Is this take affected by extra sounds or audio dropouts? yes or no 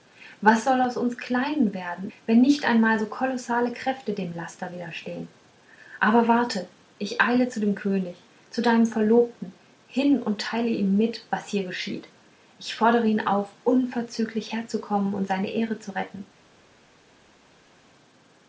no